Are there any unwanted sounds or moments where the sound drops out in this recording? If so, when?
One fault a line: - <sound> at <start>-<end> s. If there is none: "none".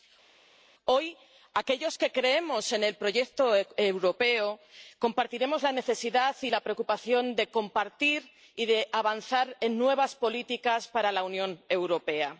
none